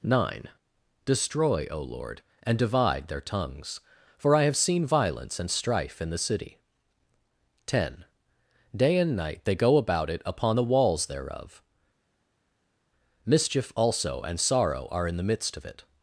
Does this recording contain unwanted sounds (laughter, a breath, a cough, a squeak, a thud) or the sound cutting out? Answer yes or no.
no